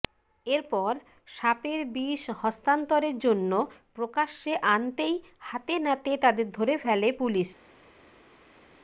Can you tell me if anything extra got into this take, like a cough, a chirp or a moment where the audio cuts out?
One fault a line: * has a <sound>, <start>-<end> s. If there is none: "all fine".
all fine